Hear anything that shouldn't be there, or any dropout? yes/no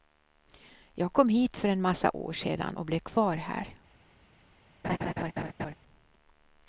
yes